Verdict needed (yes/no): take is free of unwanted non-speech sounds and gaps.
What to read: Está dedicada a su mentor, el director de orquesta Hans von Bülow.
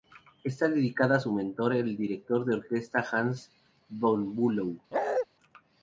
no